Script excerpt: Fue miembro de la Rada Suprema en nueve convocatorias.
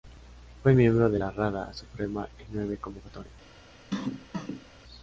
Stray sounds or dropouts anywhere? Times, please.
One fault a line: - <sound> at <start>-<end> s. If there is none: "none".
- cough at 3.9-4.7 s